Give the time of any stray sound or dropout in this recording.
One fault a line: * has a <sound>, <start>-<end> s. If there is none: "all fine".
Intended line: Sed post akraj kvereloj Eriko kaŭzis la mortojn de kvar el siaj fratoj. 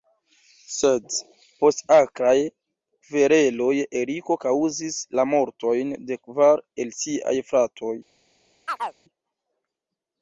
* has a chirp, 8.7-9.0 s